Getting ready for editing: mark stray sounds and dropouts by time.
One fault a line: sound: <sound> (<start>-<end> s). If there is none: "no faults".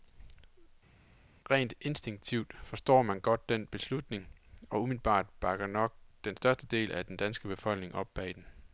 no faults